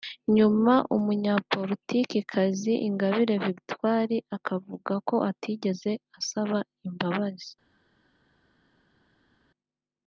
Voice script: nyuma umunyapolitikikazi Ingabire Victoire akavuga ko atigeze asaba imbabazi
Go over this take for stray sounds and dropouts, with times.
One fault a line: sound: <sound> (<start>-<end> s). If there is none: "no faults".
no faults